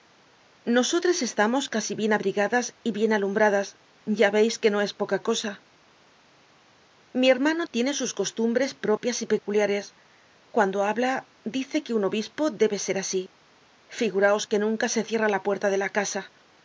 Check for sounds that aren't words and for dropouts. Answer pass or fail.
pass